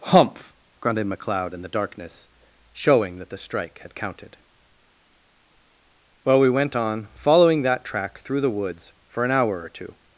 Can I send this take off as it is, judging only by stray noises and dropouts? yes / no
yes